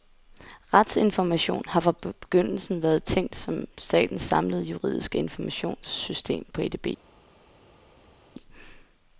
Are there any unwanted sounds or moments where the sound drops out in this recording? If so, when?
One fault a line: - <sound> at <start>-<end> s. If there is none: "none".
none